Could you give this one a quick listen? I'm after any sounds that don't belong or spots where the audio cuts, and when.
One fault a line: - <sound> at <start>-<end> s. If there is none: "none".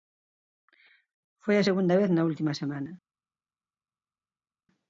none